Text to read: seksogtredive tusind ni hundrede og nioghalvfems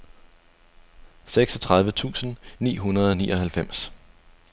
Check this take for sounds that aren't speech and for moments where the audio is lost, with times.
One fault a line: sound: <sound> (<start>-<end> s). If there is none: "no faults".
no faults